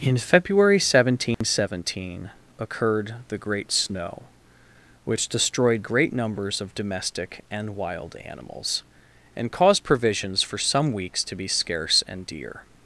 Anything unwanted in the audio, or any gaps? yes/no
yes